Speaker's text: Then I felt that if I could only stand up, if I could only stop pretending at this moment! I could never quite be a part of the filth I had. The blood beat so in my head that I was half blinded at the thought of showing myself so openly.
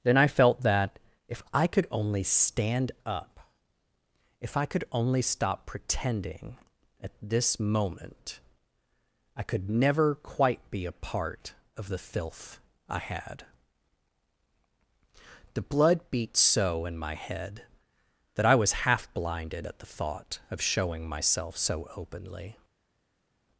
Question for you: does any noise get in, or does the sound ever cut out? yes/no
no